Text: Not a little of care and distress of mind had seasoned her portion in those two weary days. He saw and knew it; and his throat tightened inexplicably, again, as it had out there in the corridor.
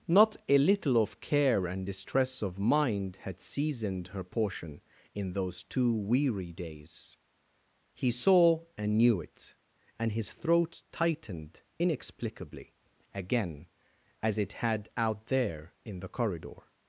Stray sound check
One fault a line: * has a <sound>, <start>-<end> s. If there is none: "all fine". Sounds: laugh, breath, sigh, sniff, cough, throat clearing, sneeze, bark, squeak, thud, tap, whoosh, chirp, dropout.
all fine